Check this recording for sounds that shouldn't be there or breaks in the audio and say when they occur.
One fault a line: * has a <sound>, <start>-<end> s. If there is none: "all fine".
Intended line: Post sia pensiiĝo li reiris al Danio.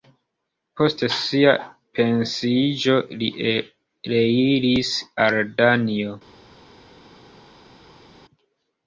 all fine